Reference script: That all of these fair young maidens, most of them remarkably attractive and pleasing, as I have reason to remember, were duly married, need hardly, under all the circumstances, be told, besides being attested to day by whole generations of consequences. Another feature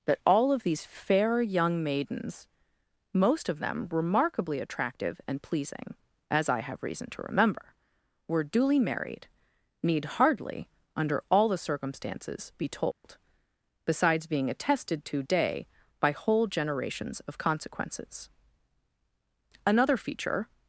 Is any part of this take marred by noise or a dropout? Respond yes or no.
yes